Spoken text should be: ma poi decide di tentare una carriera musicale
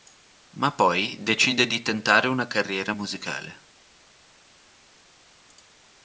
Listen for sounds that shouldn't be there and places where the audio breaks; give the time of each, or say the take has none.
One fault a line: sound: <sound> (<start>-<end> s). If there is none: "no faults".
no faults